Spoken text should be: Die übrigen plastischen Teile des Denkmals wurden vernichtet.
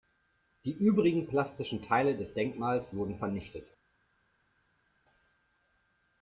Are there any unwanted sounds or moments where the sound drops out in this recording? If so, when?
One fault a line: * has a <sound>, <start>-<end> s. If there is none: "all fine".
all fine